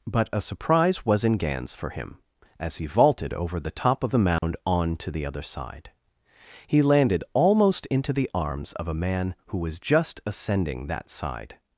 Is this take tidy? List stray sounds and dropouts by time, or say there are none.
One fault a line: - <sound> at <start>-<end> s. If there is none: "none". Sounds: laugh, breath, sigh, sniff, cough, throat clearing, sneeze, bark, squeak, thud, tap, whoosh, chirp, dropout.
- dropout at 4.4-4.4 s